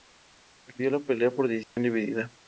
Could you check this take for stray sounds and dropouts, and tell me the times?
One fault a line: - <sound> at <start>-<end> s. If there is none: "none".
- dropout at 1.6-1.8 s